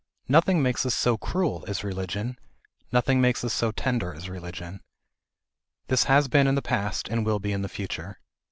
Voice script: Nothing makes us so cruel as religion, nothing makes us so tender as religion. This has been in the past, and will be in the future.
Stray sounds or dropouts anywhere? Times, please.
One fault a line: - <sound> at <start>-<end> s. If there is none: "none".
none